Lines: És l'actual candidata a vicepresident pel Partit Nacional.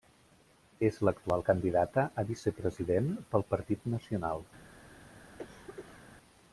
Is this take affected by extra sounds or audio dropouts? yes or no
yes